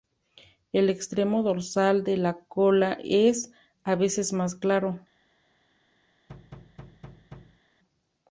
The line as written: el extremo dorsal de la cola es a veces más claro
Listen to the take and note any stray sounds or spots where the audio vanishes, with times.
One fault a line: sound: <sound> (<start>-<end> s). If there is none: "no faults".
sound: thud (6.3-7.6 s)